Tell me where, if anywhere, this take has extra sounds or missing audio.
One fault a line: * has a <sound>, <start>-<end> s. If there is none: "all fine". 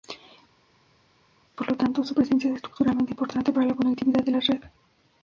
all fine